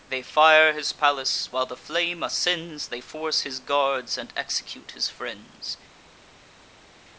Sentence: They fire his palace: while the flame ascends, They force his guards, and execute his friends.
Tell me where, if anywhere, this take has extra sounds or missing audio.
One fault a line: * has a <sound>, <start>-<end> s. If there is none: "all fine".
all fine